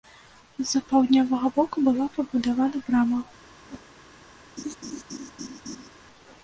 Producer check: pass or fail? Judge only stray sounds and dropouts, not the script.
fail